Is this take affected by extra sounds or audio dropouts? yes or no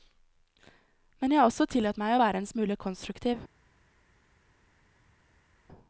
no